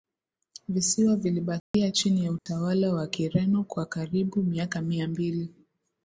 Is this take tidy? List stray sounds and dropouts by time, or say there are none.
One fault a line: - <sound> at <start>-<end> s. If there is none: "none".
- dropout at 1.6-1.7 s
- dropout at 2.4-2.5 s